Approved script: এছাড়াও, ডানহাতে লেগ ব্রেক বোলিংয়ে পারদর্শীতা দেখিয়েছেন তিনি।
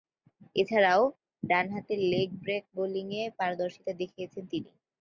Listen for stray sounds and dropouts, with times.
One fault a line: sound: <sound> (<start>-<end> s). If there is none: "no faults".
no faults